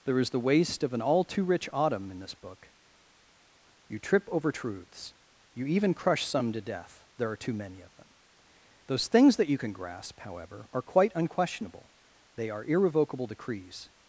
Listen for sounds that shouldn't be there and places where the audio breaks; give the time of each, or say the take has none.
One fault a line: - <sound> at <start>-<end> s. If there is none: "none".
none